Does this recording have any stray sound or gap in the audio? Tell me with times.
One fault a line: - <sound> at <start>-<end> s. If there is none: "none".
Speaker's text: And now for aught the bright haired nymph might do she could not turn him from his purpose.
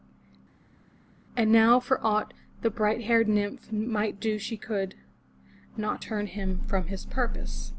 none